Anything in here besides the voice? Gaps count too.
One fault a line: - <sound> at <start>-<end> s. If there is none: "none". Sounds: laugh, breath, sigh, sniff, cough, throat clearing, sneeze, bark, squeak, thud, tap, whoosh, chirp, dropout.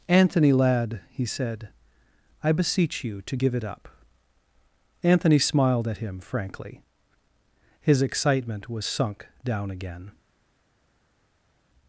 none